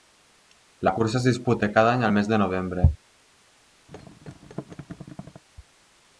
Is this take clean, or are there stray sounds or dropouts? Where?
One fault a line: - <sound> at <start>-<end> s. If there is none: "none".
- thud at 3.9-5.4 s